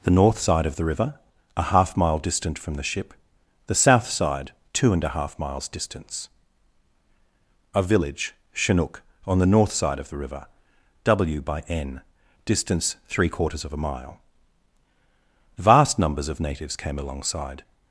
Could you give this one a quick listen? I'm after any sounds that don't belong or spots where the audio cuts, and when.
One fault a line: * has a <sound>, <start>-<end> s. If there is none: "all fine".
all fine